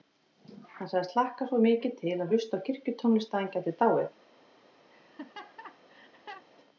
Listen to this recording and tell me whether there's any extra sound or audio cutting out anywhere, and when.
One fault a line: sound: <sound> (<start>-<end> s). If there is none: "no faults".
sound: laugh (4.9-6.5 s)